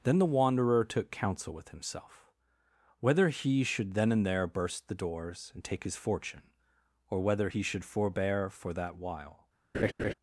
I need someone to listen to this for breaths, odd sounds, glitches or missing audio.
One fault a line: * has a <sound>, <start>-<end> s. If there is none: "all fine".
* has a laugh, 9.7-10.1 s